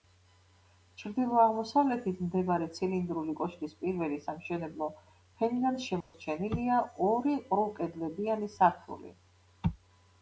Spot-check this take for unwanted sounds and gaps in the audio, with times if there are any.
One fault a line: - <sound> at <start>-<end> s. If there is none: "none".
- dropout at 6.0-6.1 s